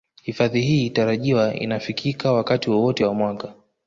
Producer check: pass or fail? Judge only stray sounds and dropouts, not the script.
pass